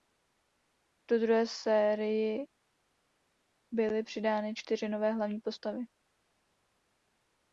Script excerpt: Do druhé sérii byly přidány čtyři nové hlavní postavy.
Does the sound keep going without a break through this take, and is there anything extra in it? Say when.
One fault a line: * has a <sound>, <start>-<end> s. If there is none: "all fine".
all fine